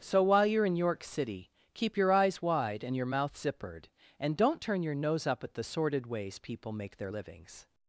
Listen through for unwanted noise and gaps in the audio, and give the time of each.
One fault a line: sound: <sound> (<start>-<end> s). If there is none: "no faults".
no faults